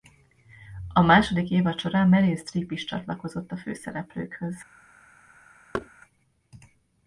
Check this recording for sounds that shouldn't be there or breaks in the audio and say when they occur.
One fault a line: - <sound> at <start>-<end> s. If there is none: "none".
- thud at 5.7-5.9 s